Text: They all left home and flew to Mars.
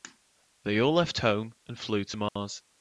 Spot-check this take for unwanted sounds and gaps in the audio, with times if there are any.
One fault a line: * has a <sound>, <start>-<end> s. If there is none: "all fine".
* has a dropout, 2.3-2.4 s